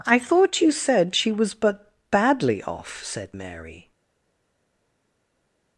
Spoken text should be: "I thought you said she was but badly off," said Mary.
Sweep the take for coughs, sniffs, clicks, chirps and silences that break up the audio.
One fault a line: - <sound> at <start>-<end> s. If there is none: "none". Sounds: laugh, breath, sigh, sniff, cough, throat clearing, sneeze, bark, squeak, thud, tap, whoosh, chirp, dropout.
none